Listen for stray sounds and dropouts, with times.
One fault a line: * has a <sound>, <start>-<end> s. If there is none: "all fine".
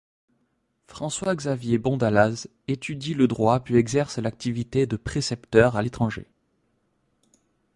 all fine